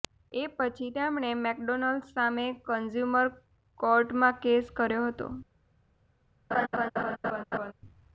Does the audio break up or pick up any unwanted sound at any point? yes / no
yes